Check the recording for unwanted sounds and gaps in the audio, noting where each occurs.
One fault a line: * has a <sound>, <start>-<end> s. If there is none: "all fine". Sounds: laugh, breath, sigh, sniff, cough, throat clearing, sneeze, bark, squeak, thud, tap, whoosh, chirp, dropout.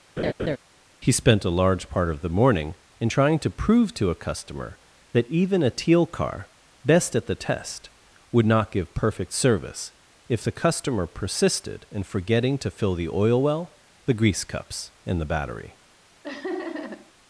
* has a laugh, 0.2-0.6 s
* has a laugh, 16.2-17.1 s